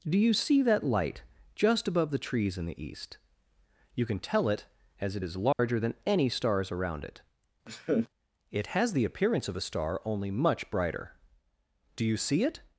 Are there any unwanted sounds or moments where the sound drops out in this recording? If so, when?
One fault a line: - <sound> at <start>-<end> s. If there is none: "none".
- dropout at 5.5-5.6 s
- laugh at 7.7-8.1 s